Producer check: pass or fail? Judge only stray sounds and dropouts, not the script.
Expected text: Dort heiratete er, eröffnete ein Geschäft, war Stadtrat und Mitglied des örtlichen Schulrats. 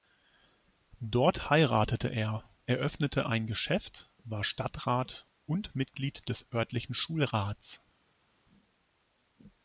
pass